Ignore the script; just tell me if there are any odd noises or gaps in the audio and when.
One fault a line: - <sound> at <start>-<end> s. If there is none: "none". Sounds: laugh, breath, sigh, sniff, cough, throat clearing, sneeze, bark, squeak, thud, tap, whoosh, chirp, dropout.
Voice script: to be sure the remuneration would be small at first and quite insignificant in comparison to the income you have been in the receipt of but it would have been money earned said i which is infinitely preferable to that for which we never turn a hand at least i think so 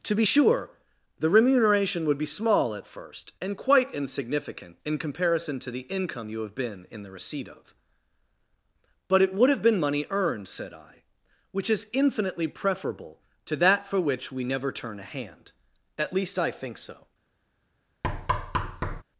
- thud at 18.0-19.0 s